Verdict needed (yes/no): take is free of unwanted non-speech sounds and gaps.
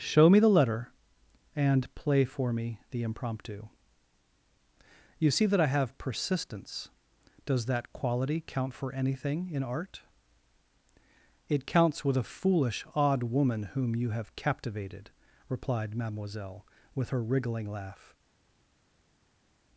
yes